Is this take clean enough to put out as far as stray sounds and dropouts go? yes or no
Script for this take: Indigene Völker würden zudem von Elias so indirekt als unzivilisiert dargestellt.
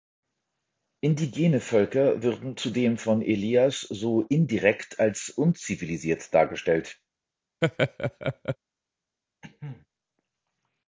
no